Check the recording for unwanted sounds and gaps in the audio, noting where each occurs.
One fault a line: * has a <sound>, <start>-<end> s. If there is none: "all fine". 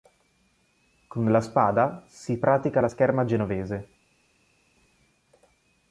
all fine